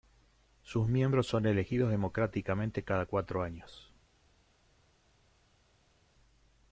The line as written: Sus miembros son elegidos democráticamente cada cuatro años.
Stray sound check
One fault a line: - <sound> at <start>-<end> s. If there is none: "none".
none